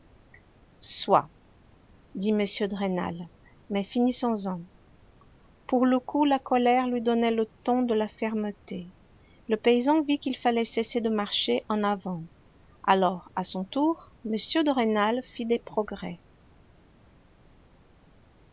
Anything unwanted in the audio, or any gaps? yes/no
no